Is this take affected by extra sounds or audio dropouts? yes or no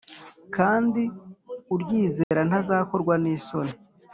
yes